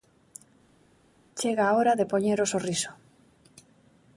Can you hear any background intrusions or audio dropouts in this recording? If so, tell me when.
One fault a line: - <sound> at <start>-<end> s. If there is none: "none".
none